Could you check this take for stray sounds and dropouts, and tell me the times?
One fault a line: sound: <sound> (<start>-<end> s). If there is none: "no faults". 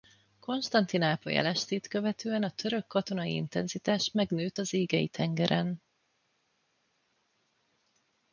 no faults